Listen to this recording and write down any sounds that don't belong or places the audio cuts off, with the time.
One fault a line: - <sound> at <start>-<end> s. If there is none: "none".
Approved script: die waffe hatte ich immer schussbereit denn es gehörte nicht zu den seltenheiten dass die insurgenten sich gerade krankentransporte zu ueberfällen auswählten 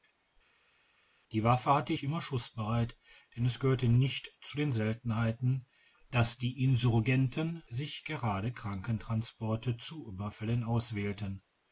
none